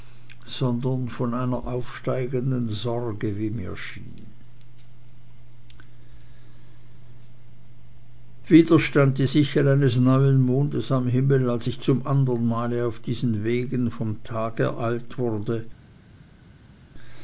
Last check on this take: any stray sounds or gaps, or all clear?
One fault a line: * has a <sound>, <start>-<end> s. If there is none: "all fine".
all fine